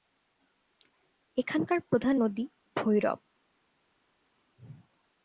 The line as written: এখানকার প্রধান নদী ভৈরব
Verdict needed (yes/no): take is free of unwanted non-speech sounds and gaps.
yes